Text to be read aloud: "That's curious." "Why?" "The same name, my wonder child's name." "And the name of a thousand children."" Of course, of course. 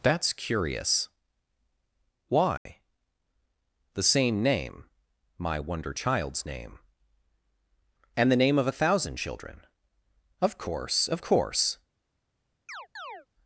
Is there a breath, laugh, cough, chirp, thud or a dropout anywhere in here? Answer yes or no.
yes